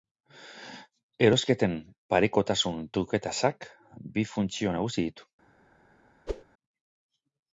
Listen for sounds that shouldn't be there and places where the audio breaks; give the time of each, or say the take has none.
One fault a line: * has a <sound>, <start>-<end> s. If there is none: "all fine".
* has a whoosh, 6.3-6.4 s